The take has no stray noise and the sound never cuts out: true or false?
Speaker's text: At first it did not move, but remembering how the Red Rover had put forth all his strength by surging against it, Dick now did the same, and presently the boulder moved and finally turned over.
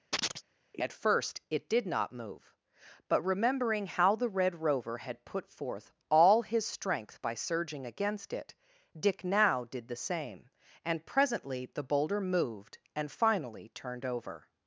false